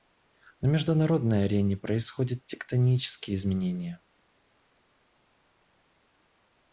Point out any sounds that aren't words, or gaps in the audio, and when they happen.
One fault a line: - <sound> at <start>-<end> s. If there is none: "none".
none